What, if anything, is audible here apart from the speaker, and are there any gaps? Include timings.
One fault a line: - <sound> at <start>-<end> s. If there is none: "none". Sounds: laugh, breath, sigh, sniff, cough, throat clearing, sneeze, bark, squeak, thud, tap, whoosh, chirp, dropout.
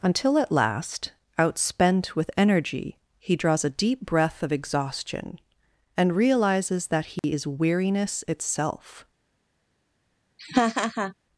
- dropout at 7.2-7.2 s
- laugh at 10.4-11.1 s